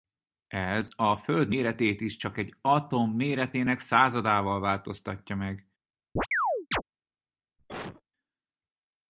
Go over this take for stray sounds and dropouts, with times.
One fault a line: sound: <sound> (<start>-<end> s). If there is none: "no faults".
sound: chirp (6.2-6.8 s)
sound: cough (7.6-8.0 s)